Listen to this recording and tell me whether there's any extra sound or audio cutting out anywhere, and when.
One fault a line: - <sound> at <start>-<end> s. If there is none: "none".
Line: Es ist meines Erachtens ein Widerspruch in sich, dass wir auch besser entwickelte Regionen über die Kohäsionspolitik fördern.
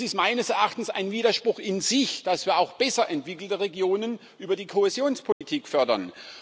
- dropout at 5.3-5.4 s